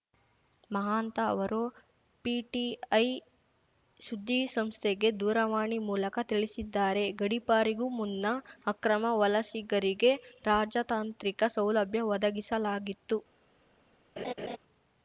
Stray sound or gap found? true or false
true